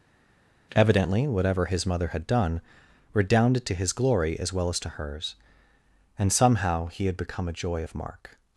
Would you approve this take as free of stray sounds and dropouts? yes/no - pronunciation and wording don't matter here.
yes